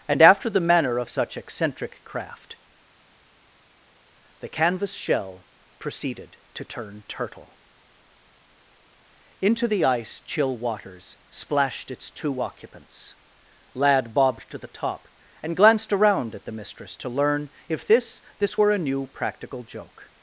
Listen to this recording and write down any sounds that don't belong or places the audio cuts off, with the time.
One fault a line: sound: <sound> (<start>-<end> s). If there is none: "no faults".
no faults